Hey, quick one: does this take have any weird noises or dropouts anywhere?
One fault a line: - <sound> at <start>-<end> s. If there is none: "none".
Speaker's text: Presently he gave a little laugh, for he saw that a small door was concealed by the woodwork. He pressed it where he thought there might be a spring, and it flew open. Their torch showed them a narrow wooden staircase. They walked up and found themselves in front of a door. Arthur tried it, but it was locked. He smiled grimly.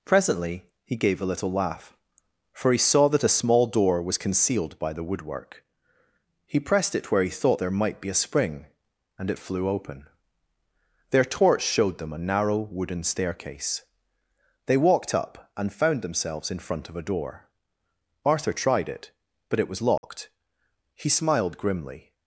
- dropout at 20.0-20.0 s